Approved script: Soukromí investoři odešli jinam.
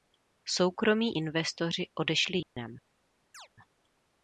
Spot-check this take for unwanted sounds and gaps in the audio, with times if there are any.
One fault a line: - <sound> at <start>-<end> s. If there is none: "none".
- dropout at 2.4-2.6 s
- chirp at 3.3-3.5 s